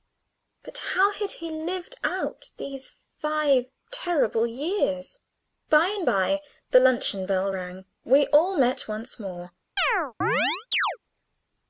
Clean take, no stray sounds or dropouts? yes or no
no